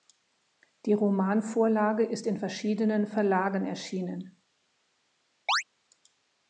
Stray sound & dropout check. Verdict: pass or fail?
fail